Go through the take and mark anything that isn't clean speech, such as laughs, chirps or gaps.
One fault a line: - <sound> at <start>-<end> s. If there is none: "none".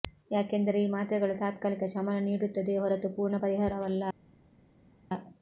none